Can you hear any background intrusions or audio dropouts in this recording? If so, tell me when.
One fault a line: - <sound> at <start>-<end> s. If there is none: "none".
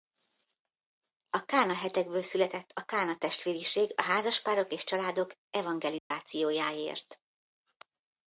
- dropout at 6.0-6.1 s